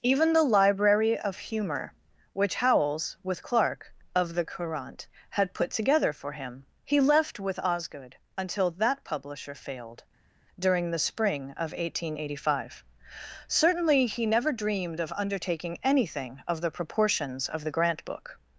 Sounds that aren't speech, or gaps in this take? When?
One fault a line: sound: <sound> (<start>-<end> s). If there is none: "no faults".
no faults